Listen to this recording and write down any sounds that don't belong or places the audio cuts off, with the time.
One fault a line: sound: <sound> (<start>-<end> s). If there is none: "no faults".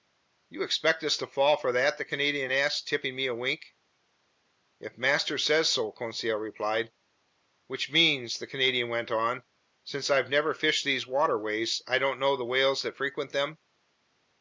no faults